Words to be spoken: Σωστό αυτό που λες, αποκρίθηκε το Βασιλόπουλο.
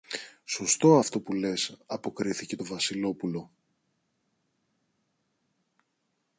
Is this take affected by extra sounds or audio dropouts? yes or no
no